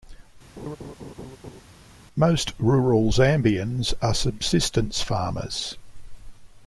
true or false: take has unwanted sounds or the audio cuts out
true